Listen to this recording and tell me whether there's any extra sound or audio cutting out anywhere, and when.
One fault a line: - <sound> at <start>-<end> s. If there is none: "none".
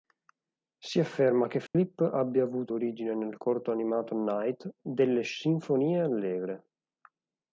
- dropout at 1.7-1.7 s